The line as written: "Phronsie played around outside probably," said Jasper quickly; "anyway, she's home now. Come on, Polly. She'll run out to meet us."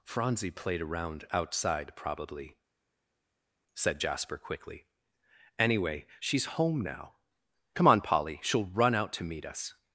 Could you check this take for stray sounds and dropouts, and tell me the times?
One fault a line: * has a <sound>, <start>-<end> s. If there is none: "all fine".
all fine